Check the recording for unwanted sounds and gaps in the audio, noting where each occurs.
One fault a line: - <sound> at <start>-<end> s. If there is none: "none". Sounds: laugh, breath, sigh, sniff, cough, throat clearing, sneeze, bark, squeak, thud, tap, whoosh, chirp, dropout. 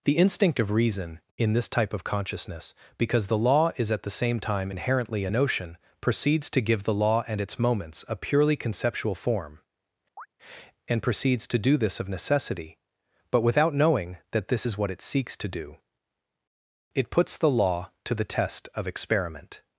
- chirp at 10.2-10.3 s